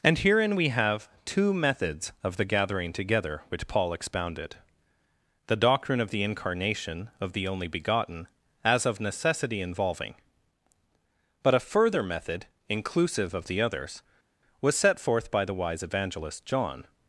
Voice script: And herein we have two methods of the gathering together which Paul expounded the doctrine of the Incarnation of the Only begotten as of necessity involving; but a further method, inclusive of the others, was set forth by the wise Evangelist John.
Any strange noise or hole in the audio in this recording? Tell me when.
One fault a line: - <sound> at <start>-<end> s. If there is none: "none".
none